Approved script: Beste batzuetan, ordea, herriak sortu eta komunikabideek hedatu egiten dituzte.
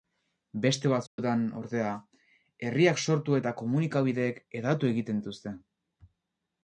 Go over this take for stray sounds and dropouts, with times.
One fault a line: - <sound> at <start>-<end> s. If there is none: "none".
- dropout at 1.1-1.2 s